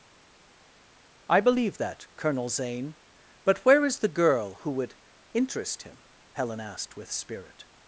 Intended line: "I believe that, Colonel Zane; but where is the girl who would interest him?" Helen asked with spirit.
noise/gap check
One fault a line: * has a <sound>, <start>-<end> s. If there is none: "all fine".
all fine